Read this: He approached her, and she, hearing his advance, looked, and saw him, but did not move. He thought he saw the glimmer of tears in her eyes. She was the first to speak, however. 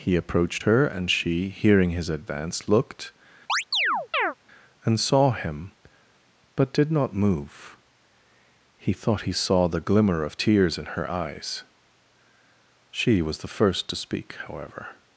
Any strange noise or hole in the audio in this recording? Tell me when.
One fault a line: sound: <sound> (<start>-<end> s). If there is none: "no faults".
sound: chirp (3.5-4.3 s)